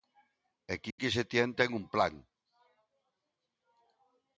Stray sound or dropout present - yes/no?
yes